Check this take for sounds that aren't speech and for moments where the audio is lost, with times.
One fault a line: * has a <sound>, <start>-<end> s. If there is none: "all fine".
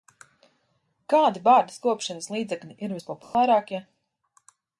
* has a dropout, 3.2-3.3 s